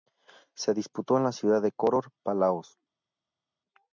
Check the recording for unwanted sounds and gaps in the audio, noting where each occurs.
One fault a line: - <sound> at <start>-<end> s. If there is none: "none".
none